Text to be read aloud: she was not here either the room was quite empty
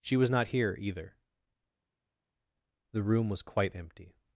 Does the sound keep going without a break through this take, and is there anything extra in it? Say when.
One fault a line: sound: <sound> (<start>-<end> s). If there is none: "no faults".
no faults